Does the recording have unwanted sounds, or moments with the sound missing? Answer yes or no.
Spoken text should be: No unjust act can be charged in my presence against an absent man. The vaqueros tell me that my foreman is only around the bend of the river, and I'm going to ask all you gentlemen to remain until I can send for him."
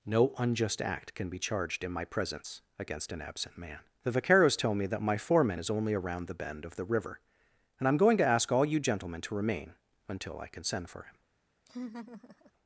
yes